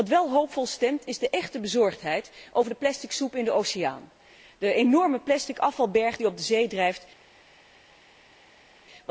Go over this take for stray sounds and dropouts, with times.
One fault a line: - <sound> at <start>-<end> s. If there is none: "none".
none